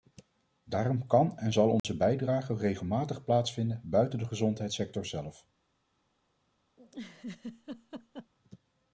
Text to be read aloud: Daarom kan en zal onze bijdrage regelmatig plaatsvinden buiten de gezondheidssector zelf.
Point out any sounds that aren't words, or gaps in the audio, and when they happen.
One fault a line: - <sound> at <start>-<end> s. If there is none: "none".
- dropout at 1.8-1.8 s
- laugh at 6.8-8.3 s